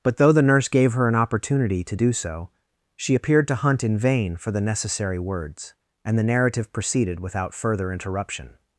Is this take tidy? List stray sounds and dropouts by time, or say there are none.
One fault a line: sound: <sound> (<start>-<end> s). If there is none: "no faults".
no faults